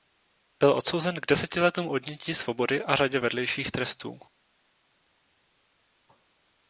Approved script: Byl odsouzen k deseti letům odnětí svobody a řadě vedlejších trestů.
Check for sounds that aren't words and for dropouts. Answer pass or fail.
pass